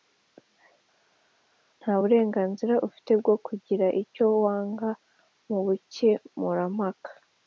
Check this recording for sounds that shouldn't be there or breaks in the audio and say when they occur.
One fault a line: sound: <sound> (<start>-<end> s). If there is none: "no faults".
no faults